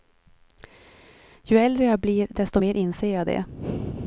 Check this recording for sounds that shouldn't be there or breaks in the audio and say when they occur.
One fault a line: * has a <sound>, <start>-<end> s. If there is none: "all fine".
all fine